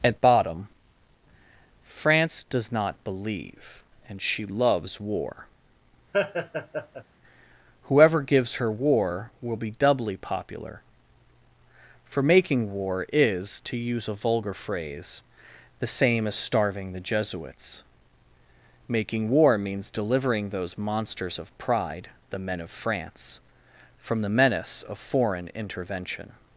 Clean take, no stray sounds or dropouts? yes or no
no